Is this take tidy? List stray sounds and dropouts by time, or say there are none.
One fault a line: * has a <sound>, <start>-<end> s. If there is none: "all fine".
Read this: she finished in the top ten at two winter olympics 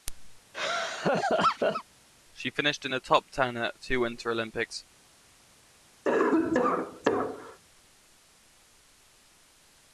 * has a laugh, 0.5-1.8 s
* has a cough, 6.1-7.6 s